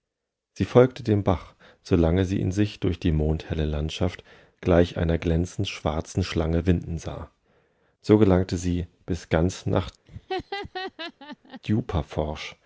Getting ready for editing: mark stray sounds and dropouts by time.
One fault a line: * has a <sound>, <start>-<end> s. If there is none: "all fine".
* has a laugh, 10.1-11.6 s